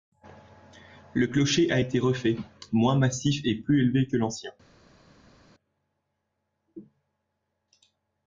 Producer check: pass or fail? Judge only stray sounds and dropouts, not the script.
pass